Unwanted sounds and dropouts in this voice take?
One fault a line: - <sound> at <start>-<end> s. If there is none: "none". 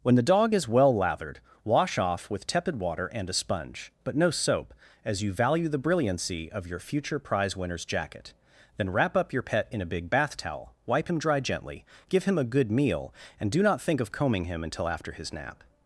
none